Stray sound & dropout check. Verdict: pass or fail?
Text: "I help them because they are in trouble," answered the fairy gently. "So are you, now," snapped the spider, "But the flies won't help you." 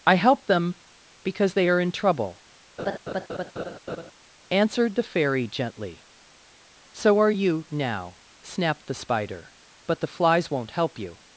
fail